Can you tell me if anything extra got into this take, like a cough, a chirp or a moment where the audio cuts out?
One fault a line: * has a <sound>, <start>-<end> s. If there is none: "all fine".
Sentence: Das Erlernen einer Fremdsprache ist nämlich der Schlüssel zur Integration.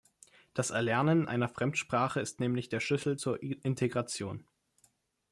all fine